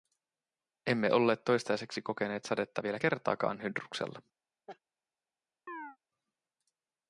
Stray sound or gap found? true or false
true